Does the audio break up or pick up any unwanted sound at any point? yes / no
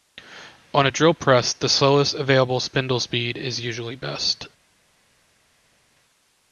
no